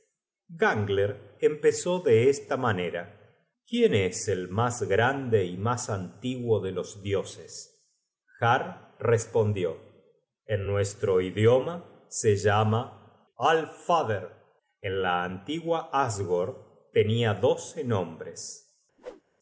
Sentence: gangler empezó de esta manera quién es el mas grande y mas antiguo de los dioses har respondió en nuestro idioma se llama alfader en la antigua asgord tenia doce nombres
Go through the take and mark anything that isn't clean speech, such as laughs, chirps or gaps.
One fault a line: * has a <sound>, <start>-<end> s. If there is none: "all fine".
* has a whoosh, 19.0-19.2 s